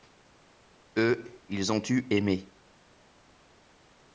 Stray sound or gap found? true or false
false